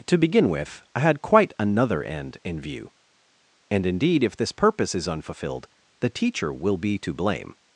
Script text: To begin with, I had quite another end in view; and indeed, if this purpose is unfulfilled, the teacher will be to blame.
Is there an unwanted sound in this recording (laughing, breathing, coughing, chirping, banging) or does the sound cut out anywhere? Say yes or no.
no